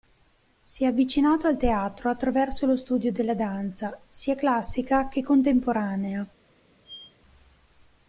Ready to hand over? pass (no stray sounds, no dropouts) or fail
fail